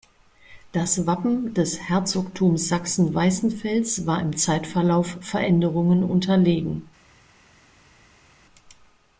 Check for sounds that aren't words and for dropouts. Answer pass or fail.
pass